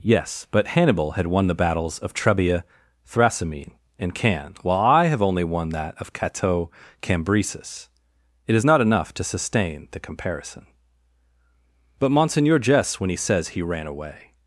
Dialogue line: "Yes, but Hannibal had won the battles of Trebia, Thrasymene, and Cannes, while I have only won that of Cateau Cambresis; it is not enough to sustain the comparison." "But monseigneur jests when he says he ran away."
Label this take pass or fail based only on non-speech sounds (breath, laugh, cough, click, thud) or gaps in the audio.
pass